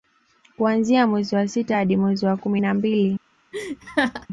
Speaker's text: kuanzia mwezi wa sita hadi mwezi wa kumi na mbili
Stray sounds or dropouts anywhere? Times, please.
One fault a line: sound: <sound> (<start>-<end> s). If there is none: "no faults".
sound: laugh (3.5-4.3 s)